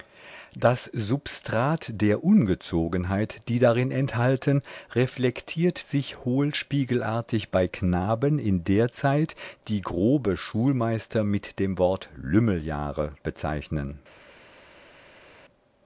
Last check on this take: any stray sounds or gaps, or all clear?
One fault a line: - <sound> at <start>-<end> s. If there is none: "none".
none